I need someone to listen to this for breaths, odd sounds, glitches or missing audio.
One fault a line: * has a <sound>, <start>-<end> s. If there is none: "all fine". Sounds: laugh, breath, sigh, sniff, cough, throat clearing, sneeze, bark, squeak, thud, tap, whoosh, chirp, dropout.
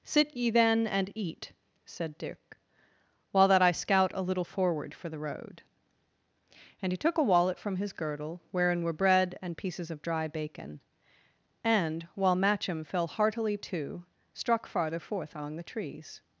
all fine